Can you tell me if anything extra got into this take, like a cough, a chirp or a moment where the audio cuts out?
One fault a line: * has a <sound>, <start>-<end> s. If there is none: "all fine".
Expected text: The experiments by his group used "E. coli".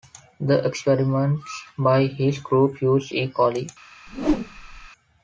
* has a whoosh, 4.1-4.9 s